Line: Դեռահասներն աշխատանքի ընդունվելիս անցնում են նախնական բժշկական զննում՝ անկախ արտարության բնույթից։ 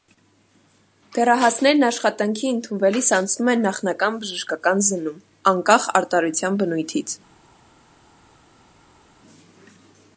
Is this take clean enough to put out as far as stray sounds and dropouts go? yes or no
yes